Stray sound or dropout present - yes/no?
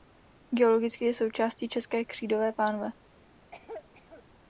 yes